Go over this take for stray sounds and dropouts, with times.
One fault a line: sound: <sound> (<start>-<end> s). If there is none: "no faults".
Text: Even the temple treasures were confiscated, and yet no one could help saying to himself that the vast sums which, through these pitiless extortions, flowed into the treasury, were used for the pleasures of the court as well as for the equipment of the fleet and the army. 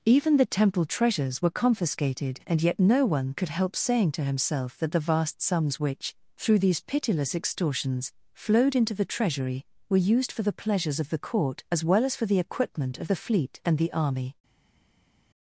no faults